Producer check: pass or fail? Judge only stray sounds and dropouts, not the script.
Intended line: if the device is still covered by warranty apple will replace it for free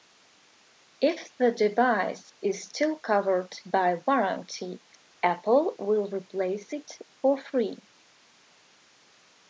pass